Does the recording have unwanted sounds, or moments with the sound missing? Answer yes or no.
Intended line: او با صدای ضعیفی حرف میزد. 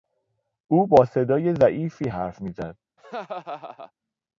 yes